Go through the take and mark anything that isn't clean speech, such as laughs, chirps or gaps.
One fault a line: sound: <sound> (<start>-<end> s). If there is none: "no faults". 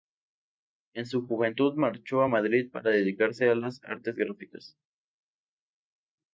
no faults